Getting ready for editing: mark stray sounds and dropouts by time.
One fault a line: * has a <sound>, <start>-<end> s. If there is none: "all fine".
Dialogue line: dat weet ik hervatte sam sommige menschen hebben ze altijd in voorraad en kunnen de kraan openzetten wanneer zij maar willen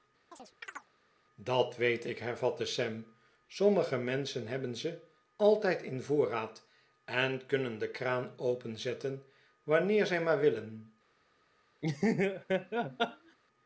* has a chirp, 0.3-0.9 s
* has a laugh, 11.8-13.4 s